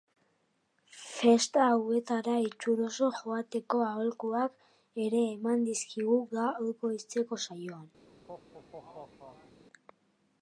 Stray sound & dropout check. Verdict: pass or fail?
fail